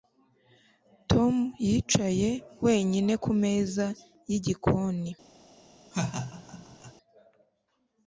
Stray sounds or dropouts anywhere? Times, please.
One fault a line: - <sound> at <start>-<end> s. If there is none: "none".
- laugh at 5.9-6.9 s